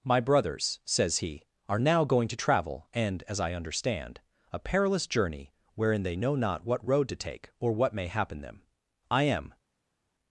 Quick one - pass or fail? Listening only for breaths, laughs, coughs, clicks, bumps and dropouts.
pass